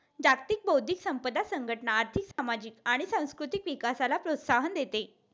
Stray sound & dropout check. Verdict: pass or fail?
fail